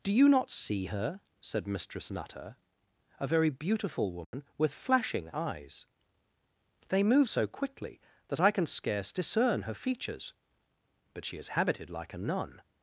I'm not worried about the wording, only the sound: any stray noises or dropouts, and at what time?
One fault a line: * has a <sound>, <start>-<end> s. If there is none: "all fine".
* has a dropout, 4.2-4.3 s